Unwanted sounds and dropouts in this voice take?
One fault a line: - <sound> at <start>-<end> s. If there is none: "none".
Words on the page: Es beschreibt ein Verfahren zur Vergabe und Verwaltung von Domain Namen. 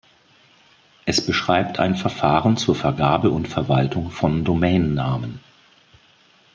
none